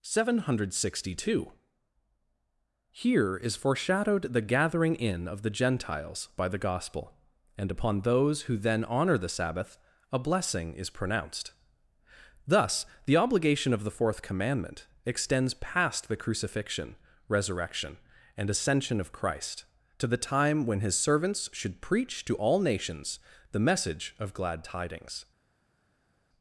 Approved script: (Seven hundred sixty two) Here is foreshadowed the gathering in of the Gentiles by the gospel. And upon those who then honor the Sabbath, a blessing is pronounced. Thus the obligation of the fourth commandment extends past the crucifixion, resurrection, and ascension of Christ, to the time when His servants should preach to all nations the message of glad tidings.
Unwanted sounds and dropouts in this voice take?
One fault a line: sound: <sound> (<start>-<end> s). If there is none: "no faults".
no faults